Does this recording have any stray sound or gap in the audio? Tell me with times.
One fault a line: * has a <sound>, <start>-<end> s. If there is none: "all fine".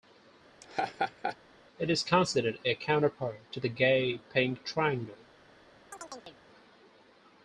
* has a laugh, 0.6-1.4 s
* has a chirp, 5.9-6.4 s